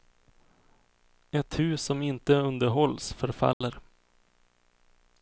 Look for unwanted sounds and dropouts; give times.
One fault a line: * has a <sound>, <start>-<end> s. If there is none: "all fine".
* has a dropout, 3.5-3.6 s